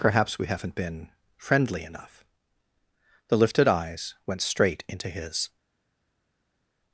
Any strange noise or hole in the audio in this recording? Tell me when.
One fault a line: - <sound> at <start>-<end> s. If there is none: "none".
none